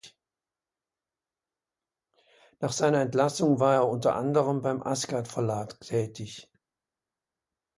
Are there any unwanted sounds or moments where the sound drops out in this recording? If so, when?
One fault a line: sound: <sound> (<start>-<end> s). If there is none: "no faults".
no faults